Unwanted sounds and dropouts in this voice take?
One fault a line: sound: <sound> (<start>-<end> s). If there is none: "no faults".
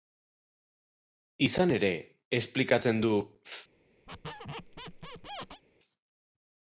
sound: squeak (4.1-5.6 s)